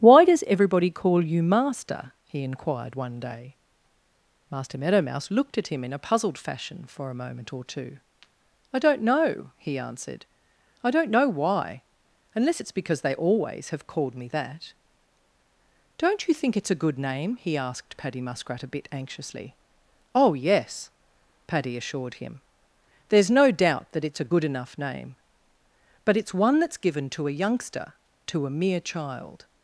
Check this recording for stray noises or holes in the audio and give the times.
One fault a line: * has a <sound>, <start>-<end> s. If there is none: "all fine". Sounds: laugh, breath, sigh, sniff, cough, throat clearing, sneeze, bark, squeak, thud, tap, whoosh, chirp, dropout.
all fine